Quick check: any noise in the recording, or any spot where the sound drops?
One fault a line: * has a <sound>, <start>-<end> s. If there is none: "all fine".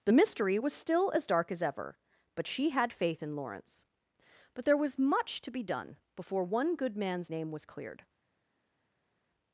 all fine